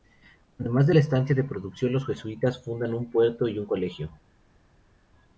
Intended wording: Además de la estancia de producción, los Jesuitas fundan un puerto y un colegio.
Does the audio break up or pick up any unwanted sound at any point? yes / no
no